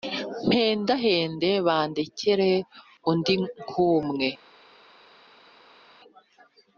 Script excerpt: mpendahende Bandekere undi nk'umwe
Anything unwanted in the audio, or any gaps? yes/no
no